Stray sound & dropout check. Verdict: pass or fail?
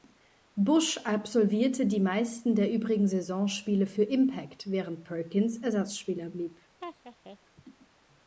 fail